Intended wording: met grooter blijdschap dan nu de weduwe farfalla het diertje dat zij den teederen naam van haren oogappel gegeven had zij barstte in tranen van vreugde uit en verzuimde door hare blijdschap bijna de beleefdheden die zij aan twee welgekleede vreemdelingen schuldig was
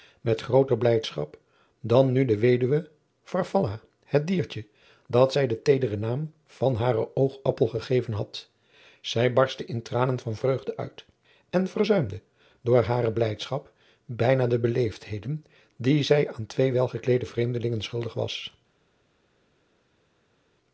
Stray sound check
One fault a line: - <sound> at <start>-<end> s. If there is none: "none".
none